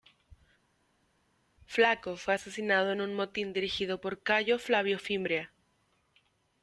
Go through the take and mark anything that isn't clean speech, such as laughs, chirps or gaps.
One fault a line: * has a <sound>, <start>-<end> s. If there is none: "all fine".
all fine